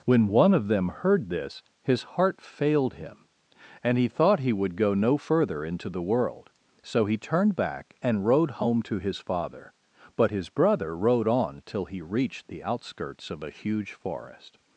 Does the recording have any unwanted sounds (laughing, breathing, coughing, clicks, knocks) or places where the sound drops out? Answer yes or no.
no